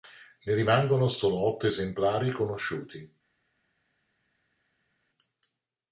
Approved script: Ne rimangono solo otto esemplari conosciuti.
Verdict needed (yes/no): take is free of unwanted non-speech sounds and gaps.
yes